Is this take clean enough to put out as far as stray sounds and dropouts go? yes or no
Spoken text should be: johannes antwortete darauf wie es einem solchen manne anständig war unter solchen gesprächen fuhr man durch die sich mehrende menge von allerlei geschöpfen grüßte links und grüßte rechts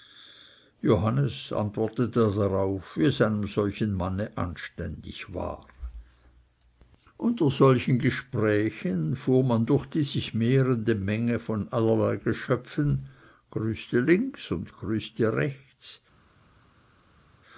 yes